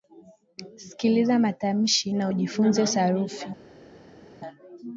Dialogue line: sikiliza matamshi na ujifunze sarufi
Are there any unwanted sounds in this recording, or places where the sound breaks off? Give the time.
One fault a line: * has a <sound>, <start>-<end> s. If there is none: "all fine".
all fine